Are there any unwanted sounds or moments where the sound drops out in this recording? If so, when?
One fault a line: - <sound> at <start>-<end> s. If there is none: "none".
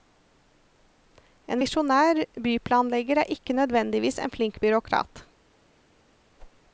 - whoosh at 6.4-6.6 s